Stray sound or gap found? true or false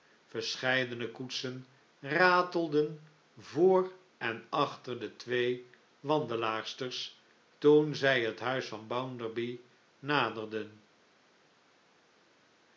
false